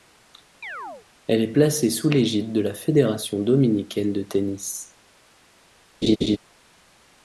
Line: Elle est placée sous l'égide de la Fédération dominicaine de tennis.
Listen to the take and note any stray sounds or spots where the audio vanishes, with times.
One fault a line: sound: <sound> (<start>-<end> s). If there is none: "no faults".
sound: chirp (0.6-1.1 s)
sound: laugh (6.0-6.4 s)